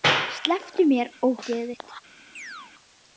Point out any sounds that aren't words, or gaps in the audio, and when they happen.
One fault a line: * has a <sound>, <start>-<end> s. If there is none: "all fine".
* has a chirp, 2.4-2.7 s